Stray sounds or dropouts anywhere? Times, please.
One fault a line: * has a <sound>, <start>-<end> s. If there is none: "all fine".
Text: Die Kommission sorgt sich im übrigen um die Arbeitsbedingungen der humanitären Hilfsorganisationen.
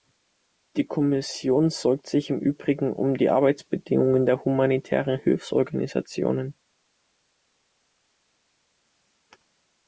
all fine